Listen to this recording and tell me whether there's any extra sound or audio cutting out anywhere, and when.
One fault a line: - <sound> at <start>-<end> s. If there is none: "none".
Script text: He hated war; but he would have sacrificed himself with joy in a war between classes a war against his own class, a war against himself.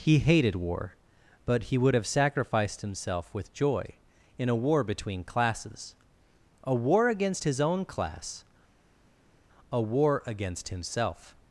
none